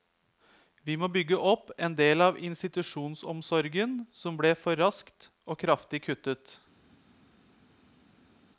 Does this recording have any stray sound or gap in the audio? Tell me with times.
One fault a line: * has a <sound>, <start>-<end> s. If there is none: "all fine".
all fine